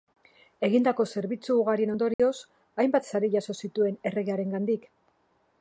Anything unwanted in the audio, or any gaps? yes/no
yes